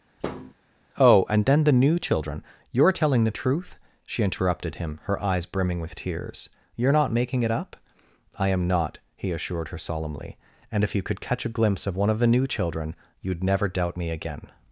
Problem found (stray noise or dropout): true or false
true